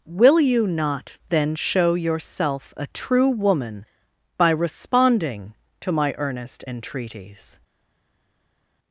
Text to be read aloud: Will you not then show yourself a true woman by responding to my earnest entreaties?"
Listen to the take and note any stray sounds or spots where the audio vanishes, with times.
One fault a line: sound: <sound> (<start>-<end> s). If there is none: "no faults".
no faults